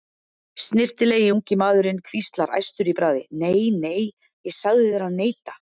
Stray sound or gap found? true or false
false